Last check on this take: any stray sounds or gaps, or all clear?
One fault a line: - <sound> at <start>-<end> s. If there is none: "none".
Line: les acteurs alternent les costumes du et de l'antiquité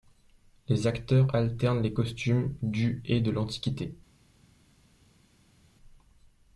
none